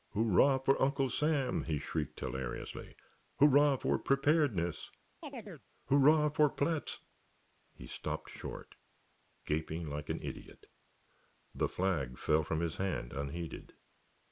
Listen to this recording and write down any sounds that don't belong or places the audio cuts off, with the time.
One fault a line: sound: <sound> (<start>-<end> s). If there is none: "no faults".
sound: chirp (5.2-5.7 s)